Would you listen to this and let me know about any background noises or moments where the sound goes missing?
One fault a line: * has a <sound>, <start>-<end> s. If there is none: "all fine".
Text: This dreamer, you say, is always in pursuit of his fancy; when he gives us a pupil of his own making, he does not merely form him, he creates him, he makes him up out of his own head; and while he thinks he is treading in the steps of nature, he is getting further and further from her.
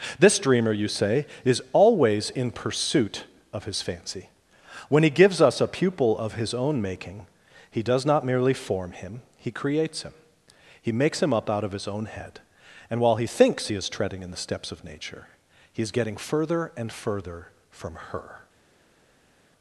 all fine